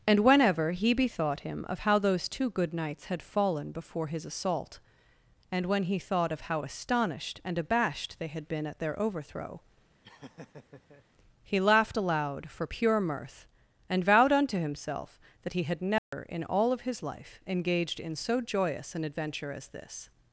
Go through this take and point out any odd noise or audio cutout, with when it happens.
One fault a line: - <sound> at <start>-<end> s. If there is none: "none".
- laugh at 10.0-11.1 s
- dropout at 16.0-16.1 s